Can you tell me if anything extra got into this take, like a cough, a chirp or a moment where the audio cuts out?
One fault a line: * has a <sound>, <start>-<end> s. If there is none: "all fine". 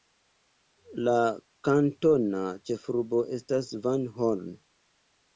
all fine